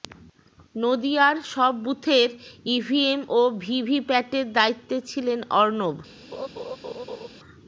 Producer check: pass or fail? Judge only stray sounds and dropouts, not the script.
fail